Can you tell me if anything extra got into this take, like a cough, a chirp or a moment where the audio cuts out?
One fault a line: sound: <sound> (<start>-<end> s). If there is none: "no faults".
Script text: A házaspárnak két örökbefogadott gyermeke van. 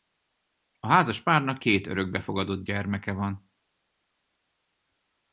no faults